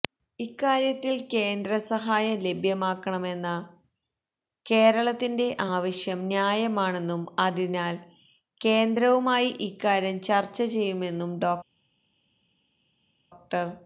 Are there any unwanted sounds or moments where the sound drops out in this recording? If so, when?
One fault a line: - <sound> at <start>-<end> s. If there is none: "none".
none